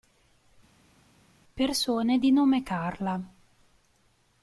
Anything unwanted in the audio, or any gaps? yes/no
no